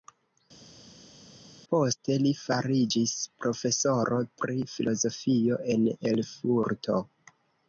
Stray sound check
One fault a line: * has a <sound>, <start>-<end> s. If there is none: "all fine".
all fine